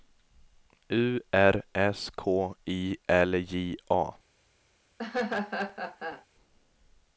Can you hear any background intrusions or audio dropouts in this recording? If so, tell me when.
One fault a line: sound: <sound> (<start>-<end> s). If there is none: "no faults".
sound: laugh (5.0-6.3 s)